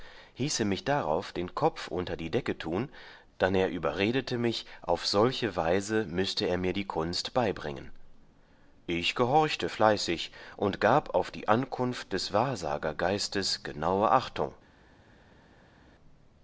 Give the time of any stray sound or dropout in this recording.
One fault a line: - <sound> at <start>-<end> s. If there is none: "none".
none